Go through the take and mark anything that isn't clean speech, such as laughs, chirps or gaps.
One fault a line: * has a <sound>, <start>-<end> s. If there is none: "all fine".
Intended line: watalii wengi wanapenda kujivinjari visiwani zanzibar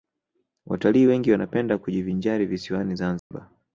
* has a dropout, 3.2-3.3 s